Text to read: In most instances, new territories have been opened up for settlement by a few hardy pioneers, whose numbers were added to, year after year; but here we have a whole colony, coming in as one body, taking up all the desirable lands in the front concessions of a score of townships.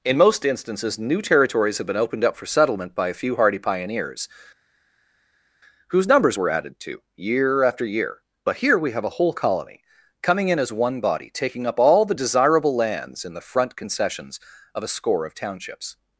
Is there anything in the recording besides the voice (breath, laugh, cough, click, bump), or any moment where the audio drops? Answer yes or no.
no